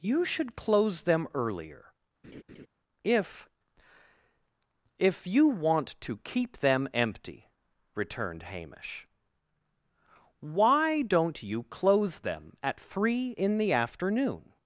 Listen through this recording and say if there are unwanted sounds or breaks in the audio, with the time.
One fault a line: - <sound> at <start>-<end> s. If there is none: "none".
- laugh at 2.2-2.7 s